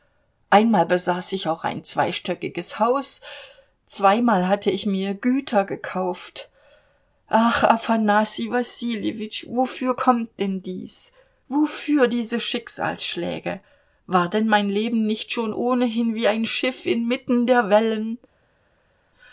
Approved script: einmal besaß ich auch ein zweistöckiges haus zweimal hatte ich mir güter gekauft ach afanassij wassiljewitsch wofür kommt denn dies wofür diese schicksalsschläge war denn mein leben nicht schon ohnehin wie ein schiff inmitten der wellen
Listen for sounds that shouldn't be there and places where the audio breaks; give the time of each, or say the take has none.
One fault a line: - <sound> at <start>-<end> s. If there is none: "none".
none